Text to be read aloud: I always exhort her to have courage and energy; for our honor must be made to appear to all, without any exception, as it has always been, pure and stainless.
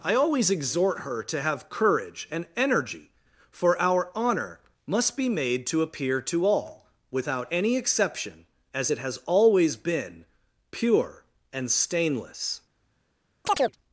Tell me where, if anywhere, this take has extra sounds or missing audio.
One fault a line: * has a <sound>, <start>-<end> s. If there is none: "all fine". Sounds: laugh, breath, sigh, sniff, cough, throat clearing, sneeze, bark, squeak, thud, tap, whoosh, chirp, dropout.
* has a chirp, 13.4-13.8 s